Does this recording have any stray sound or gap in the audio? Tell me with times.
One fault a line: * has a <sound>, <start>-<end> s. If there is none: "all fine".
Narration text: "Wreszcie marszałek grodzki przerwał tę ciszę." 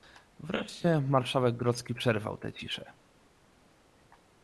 all fine